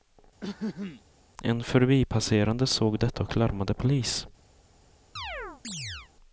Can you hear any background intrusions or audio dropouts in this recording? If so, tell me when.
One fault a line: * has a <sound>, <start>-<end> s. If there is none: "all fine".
* has a throat clearing, 0.4-1.0 s
* has a chirp, 5.2-6.1 s